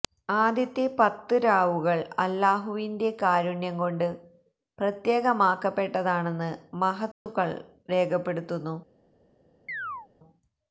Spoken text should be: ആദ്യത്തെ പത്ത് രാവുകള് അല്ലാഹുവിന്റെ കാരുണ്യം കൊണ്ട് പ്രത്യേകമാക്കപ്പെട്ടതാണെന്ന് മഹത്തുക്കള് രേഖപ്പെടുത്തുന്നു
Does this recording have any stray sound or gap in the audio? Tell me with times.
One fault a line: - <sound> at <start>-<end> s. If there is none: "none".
- dropout at 7.1-7.3 s
- chirp at 9.7-10.1 s